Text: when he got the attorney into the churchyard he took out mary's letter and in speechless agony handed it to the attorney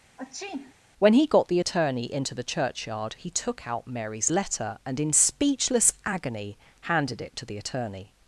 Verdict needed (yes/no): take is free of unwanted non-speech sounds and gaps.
no